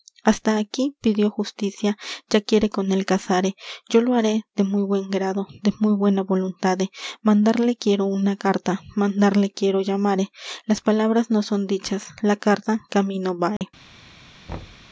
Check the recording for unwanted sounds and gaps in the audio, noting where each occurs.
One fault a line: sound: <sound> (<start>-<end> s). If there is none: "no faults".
sound: dropout (13.6-13.6 s)
sound: thud (14.5-14.9 s)